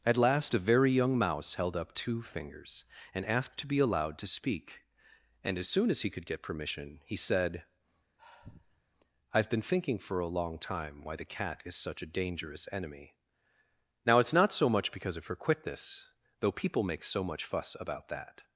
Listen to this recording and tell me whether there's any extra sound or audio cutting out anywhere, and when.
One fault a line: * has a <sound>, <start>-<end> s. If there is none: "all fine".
* has a sigh, 8.2-8.8 s